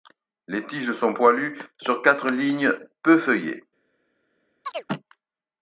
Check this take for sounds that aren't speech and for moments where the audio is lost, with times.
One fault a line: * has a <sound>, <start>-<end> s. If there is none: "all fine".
* has a chirp, 4.6-4.9 s